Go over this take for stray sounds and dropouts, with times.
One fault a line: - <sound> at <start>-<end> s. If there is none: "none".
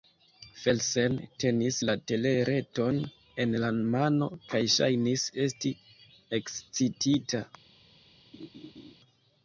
- laugh at 8.3-8.9 s